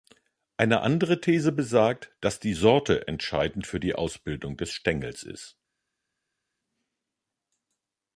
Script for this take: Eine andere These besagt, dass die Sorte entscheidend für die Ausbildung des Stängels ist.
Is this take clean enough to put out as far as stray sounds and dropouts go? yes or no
yes